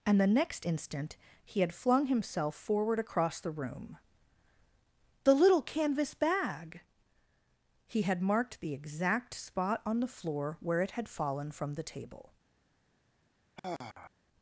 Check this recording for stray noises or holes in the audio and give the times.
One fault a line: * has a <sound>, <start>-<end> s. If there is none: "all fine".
* has a sigh, 13.6-14.1 s